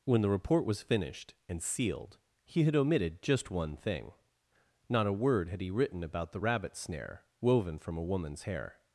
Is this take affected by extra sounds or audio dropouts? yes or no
no